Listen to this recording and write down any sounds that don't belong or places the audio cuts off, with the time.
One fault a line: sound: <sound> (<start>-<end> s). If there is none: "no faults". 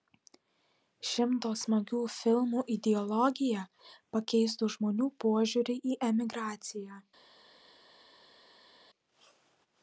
no faults